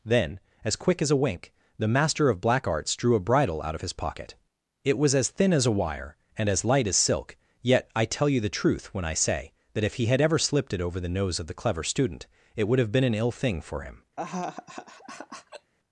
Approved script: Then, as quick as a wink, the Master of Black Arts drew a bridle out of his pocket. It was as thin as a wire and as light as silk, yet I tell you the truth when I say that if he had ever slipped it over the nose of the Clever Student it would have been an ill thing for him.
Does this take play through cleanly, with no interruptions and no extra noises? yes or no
no